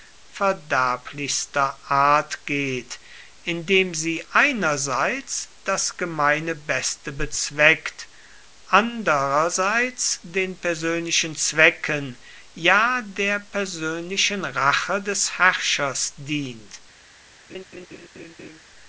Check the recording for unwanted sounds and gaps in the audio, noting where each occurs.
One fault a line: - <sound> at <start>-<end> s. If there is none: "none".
- laugh at 17.5-18.6 s